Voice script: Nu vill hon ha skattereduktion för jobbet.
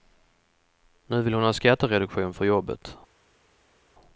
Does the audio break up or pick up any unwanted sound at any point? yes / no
no